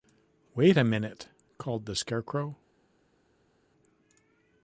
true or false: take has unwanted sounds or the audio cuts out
false